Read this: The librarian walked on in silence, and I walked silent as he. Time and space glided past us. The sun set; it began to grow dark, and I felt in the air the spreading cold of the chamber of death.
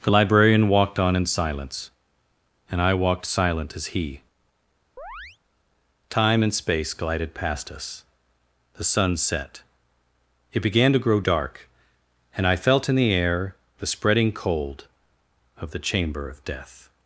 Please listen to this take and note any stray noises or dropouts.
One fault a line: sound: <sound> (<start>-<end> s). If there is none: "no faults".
sound: chirp (5.0-5.4 s)